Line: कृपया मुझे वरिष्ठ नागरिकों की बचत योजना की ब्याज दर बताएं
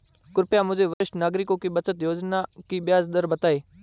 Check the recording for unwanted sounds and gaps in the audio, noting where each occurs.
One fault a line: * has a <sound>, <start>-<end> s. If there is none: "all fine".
* has a dropout, 0.9-1.0 s